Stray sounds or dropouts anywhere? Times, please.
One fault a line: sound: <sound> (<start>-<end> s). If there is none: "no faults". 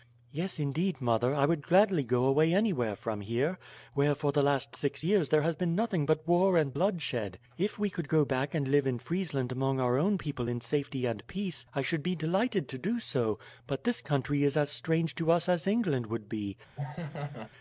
sound: laugh (16.8-17.5 s)